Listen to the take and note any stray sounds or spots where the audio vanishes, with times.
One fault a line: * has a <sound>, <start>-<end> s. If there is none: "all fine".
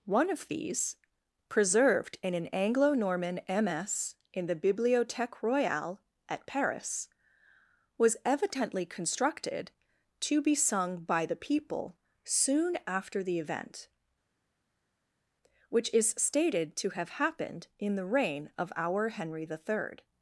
all fine